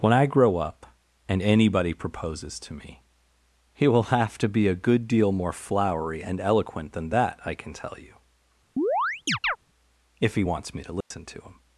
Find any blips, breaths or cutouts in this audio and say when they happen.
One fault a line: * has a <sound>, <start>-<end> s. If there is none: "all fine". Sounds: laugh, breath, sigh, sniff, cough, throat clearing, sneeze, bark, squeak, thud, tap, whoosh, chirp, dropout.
* has a chirp, 8.8-9.6 s
* has a dropout, 11.0-11.1 s